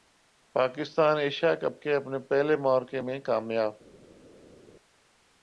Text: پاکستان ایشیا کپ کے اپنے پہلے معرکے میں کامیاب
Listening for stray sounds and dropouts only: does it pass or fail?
pass